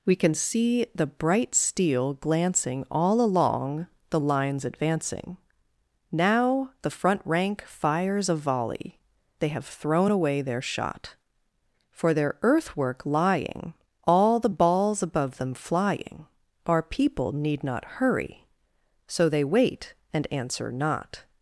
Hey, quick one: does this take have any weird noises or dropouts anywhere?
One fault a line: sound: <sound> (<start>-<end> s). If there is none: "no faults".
no faults